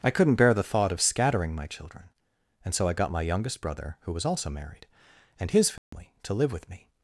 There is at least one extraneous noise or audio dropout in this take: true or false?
true